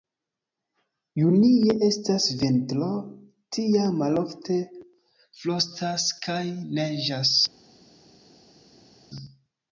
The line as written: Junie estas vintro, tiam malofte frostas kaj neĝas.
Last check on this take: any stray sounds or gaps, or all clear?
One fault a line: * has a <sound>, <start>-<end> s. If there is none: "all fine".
all fine